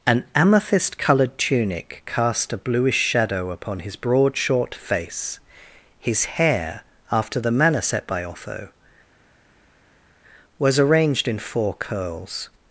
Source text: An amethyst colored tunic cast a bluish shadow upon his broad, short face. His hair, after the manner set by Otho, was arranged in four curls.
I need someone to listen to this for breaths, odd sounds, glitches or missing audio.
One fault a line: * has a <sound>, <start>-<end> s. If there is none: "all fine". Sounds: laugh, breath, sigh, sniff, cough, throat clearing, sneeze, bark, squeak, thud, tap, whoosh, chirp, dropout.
all fine